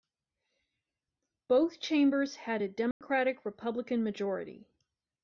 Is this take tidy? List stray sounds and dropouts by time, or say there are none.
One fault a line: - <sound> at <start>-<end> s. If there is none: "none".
- dropout at 2.9-3.0 s